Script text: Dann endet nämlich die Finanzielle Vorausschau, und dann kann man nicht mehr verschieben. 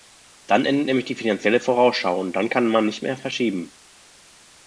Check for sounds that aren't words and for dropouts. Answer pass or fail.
pass